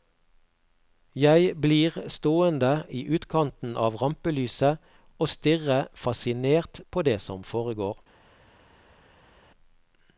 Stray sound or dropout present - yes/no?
no